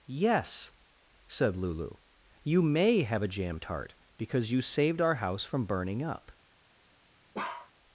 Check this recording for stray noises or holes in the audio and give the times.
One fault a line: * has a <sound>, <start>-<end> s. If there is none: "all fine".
* has a bark, 7.3-7.7 s